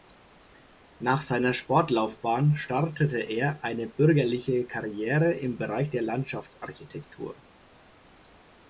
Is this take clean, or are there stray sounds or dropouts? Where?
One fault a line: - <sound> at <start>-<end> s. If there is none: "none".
none